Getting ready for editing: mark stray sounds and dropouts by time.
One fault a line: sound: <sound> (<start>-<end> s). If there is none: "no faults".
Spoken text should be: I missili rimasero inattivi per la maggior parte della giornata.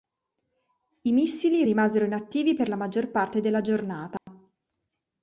sound: dropout (4.2-4.3 s)